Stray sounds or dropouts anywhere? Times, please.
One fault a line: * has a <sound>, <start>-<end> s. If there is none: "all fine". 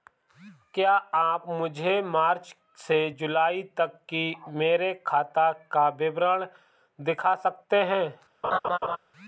* has a laugh, 8.4-9.0 s